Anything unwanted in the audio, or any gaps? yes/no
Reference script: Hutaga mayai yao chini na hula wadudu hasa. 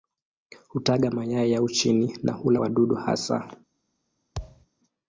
yes